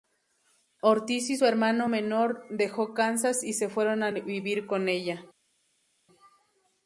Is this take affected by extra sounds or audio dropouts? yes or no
no